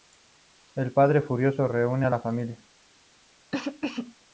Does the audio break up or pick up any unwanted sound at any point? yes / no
yes